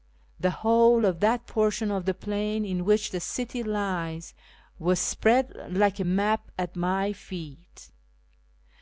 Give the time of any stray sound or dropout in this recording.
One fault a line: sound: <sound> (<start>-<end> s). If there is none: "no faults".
no faults